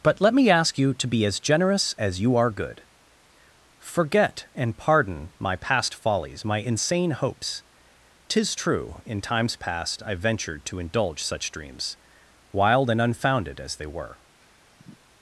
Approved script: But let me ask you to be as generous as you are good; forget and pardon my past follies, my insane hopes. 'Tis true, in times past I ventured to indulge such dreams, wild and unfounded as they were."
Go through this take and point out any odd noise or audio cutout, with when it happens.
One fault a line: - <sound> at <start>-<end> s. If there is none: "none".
- sigh at 14.4-15.0 s